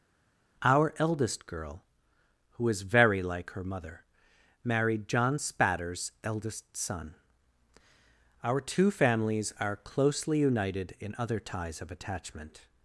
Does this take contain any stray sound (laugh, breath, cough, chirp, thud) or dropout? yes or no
no